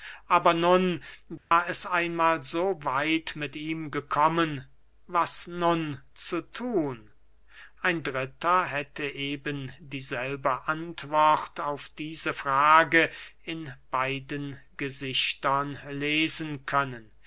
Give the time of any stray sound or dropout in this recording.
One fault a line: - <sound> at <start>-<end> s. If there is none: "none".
- dropout at 1.4-1.5 s